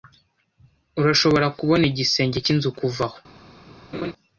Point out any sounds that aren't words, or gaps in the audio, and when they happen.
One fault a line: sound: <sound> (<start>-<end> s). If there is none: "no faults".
sound: laugh (3.9-4.1 s)